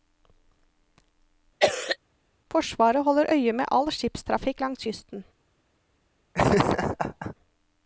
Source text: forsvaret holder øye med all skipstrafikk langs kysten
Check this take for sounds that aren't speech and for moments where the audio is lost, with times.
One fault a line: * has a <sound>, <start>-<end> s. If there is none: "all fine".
* has a cough, 1.6-2.0 s
* has a laugh, 6.3-7.4 s